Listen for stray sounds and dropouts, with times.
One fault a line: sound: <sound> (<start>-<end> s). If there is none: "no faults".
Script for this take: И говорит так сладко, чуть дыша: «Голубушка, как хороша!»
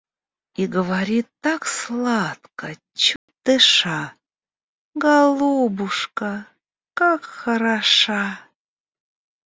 sound: dropout (3.2-3.3 s)